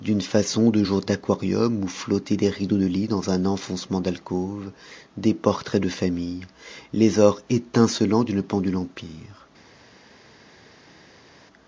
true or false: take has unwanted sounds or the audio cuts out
false